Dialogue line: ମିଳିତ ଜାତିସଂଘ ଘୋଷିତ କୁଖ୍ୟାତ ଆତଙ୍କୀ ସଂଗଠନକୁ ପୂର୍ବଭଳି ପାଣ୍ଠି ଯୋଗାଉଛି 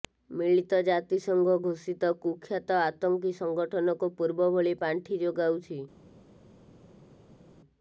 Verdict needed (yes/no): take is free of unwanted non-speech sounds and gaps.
yes